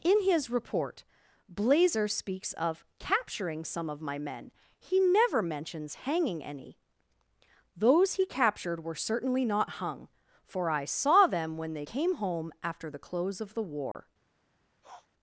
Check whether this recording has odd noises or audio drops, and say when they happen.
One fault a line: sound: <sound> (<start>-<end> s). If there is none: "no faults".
sound: dropout (13.9-13.9 s)
sound: sniff (14.8-15.1 s)